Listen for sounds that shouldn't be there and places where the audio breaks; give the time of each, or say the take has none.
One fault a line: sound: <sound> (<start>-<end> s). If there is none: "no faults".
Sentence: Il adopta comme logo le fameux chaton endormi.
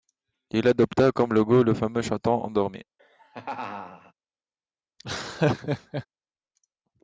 sound: laugh (3.0-4.1 s)
sound: laugh (5.0-6.1 s)